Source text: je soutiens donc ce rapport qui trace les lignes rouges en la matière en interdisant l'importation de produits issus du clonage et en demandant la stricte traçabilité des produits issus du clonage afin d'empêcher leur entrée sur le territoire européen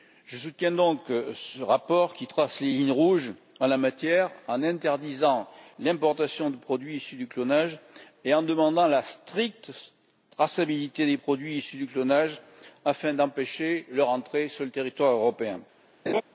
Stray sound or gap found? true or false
true